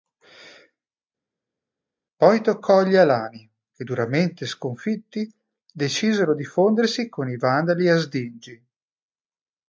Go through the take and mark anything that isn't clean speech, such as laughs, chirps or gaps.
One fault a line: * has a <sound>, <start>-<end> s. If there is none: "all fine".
all fine